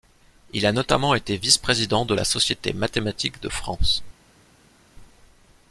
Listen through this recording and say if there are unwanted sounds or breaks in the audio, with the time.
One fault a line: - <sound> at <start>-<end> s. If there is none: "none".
none